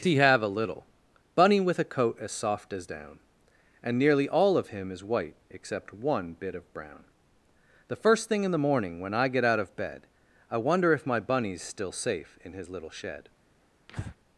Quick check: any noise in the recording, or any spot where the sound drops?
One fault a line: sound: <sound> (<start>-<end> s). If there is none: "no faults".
sound: breath (13.9-14.2 s)